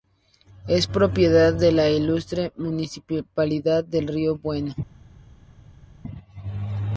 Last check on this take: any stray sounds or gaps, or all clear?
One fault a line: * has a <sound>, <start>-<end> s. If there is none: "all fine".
all fine